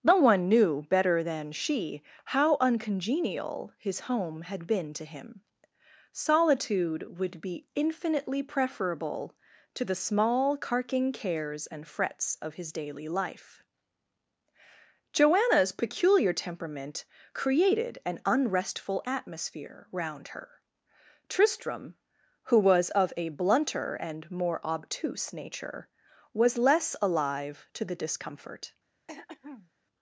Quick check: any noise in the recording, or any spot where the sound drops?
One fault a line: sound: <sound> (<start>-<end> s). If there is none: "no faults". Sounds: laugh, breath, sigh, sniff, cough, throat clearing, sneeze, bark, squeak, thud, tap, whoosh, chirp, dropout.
sound: throat clearing (29.1-29.7 s)